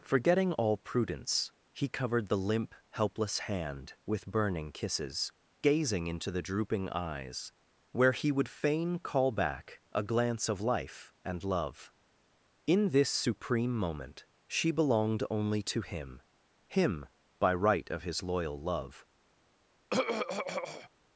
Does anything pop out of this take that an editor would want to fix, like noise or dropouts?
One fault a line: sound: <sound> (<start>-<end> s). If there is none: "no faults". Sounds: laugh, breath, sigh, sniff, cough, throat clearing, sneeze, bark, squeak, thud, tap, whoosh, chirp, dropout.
sound: throat clearing (19.9-20.9 s)